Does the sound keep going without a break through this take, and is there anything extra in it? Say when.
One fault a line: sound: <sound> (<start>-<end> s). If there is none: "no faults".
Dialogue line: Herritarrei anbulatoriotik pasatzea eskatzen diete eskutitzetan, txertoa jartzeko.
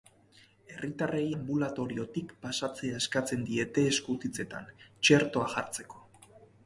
no faults